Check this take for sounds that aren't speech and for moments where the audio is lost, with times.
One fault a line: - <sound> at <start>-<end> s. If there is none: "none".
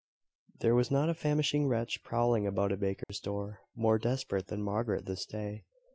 - dropout at 3.0-3.1 s